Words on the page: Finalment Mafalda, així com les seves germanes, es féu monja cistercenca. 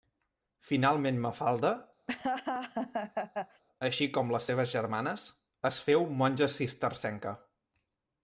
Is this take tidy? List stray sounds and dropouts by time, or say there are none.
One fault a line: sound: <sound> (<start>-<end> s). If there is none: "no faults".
sound: laugh (2.1-3.6 s)